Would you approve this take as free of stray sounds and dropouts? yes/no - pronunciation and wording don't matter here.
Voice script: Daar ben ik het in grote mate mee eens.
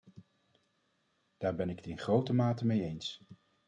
yes